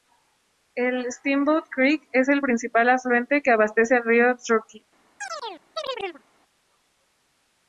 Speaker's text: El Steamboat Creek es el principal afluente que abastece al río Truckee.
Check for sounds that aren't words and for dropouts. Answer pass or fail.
fail